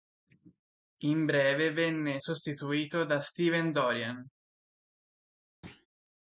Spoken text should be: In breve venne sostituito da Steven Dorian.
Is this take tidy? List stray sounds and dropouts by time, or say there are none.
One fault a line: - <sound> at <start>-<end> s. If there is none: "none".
- thud at 5.6-5.9 s